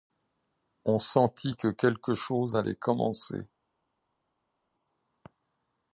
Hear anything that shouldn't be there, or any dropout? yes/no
no